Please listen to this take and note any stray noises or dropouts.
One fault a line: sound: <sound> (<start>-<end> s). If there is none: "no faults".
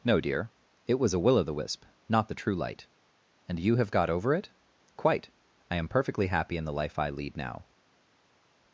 no faults